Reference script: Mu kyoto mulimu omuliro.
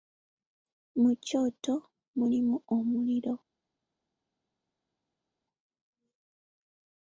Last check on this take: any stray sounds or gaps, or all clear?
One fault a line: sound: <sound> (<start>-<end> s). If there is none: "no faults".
no faults